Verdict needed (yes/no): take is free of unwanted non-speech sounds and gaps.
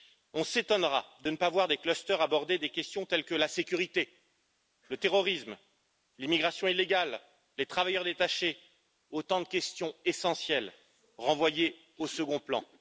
yes